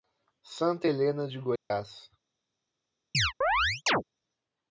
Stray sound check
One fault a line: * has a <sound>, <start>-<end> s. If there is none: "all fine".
* has a dropout, 1.6-1.7 s
* has a chirp, 3.1-4.0 s